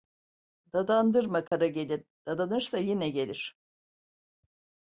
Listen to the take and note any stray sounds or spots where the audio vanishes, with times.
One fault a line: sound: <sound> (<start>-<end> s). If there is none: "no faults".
sound: dropout (1.5-1.5 s)